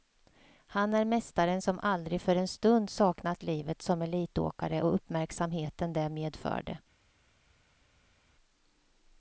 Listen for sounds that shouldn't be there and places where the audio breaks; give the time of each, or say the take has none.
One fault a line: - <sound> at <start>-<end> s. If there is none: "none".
none